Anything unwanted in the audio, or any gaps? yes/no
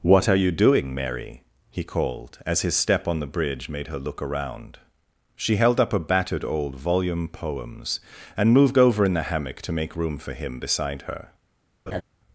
yes